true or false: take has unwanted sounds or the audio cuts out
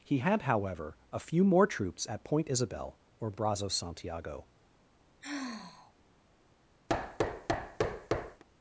true